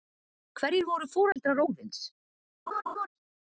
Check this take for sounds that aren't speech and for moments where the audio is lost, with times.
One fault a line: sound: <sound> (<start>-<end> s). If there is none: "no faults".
sound: dropout (1.3-1.4 s)
sound: laugh (2.7-3.1 s)